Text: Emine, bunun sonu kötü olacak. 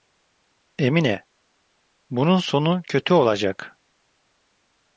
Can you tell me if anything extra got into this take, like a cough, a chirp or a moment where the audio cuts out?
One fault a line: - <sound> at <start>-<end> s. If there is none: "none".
none